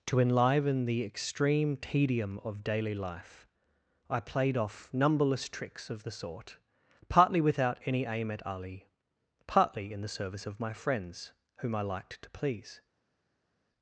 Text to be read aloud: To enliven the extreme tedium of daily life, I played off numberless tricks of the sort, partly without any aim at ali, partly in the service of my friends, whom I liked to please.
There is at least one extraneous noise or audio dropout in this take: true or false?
false